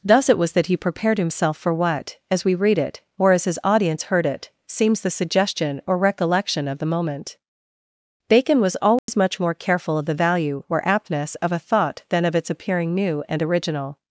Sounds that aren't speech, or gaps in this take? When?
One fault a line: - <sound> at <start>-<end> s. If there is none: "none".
- dropout at 9.0-9.1 s